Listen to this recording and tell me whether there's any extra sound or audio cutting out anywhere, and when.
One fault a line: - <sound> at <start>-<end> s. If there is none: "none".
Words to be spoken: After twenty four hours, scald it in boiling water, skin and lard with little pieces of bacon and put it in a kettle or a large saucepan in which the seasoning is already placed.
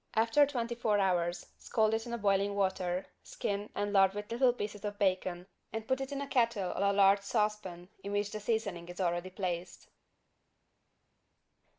none